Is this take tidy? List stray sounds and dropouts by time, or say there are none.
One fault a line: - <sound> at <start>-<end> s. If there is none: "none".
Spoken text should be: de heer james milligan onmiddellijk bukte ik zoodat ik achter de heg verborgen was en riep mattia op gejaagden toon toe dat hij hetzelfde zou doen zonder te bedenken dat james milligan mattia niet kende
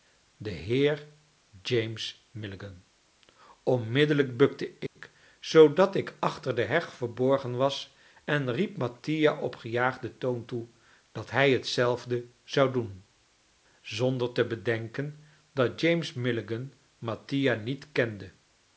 - dropout at 4.9-5.0 s